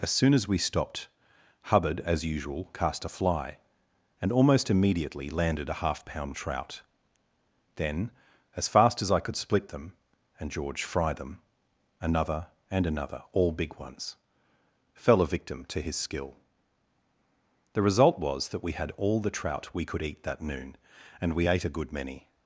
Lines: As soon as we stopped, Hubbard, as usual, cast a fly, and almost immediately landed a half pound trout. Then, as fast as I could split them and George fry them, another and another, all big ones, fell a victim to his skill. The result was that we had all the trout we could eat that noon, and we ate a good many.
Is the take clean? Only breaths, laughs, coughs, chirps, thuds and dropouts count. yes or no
yes